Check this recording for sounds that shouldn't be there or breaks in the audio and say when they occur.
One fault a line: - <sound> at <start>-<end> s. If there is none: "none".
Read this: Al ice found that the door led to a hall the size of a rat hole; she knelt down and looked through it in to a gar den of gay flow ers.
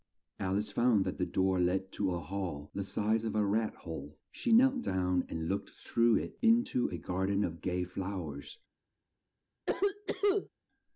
- cough at 9.7-10.5 s